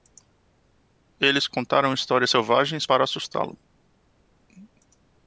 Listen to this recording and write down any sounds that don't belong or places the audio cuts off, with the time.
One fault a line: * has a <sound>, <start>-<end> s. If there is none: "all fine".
all fine